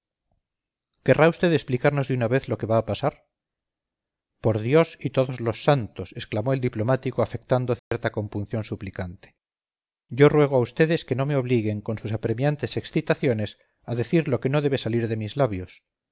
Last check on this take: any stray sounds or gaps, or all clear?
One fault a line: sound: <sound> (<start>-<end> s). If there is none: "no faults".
sound: dropout (7.8-7.9 s)